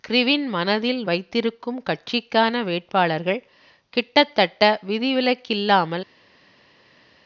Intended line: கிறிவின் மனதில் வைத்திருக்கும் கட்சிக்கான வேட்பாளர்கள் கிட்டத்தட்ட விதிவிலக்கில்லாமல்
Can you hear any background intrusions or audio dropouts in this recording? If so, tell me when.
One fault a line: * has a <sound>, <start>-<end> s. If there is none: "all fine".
all fine